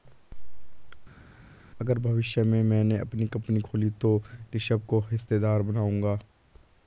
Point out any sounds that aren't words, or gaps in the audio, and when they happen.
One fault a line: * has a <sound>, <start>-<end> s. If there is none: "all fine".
all fine